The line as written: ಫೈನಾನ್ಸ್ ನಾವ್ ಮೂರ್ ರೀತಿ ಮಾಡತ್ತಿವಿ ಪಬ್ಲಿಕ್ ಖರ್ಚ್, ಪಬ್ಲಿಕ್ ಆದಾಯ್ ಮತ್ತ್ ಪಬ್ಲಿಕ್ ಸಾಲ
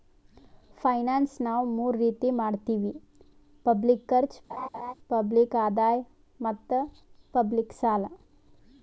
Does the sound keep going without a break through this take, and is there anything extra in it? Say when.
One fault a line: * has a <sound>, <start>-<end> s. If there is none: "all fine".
* has a laugh, 4.5-4.9 s